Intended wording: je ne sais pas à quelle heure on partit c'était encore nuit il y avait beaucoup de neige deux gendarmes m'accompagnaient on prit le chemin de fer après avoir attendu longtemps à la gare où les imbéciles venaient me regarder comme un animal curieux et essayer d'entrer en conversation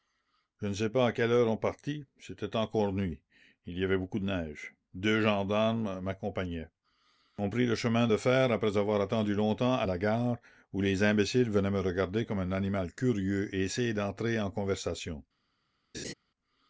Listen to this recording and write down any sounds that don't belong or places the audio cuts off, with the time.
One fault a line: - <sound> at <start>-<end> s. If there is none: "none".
- laugh at 15.9-16.1 s